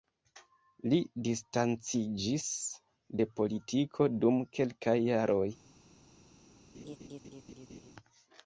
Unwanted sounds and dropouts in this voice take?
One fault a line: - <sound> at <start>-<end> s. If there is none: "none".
- laugh at 6.7-7.9 s